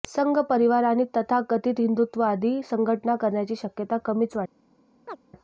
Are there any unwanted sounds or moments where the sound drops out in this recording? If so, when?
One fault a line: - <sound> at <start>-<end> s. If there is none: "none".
- chirp at 5.1-5.2 s